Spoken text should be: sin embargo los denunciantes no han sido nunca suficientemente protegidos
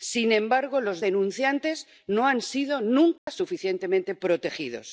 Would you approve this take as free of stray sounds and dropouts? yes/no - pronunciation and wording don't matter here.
no